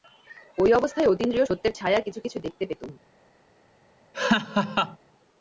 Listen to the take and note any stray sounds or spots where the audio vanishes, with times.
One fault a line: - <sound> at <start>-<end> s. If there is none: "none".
- laugh at 4.1-5.0 s